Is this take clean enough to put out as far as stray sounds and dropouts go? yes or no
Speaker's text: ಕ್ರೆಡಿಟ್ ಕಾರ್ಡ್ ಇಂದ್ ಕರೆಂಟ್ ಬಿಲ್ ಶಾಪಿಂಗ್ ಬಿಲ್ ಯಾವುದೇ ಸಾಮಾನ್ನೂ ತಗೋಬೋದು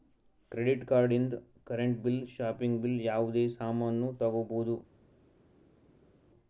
yes